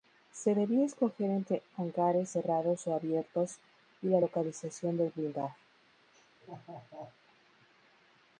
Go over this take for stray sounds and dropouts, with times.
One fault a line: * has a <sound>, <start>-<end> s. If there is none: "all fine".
* has a laugh, 6.1-7.2 s